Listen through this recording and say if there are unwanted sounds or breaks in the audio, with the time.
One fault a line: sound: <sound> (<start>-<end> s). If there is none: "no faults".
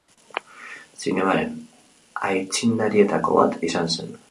no faults